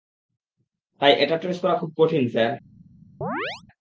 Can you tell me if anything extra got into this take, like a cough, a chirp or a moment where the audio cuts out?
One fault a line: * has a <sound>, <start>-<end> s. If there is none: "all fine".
* has a chirp, 3.2-3.6 s